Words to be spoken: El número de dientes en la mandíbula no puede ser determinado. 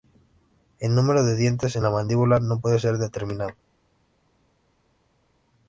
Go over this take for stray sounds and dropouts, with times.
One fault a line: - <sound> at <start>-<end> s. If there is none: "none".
none